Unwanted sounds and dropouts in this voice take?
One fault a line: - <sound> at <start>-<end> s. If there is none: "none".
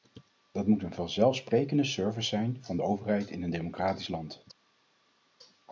none